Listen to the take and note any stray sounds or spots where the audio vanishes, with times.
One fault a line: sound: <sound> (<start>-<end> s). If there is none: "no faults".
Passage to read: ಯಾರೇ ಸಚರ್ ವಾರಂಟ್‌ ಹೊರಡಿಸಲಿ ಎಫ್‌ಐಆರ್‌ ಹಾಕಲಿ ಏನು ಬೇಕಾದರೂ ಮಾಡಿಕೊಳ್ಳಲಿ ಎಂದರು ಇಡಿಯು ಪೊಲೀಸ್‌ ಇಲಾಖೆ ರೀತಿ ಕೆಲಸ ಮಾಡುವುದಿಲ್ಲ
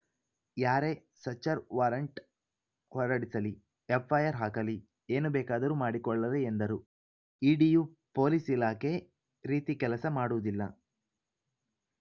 no faults